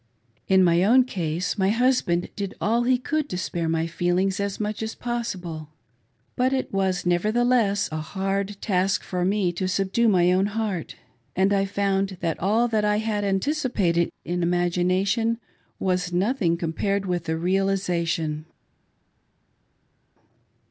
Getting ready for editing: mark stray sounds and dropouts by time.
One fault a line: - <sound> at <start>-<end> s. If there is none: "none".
none